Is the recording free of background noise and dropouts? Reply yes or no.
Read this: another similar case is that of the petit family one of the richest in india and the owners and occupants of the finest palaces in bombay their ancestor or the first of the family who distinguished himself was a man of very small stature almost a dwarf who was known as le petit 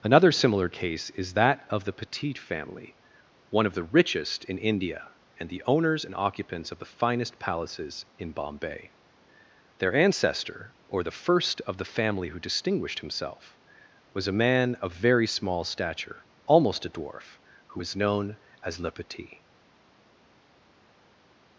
yes